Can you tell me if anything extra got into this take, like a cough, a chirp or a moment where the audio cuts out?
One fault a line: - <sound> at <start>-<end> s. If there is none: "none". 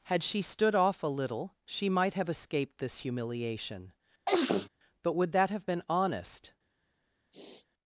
- sneeze at 4.3-4.7 s
- sniff at 7.3-7.7 s